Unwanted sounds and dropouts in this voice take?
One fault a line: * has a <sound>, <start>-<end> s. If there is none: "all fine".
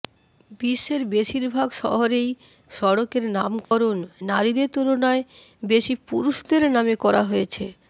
* has a dropout, 3.6-3.7 s